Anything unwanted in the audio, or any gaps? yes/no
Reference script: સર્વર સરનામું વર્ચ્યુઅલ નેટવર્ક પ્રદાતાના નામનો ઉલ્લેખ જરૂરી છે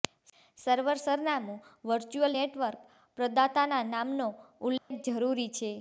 yes